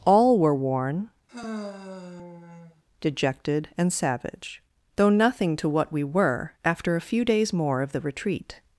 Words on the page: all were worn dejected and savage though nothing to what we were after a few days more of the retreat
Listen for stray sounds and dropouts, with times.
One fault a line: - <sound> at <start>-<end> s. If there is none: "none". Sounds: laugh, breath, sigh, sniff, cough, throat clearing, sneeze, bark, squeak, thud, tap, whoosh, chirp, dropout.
- sigh at 1.3-2.8 s